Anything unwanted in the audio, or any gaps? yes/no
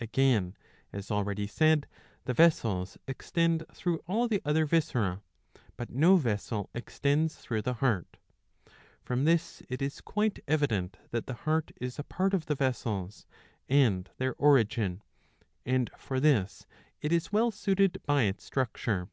no